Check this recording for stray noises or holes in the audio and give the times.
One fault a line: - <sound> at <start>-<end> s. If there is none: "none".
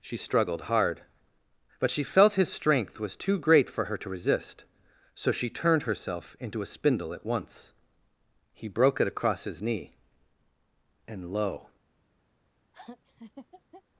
- laugh at 12.7-13.8 s